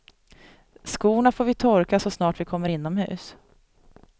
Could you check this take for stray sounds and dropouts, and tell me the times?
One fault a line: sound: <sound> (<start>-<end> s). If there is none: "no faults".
no faults